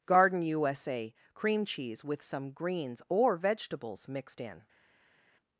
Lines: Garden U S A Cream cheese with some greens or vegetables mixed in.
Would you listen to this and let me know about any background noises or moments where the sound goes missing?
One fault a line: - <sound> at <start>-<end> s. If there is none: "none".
none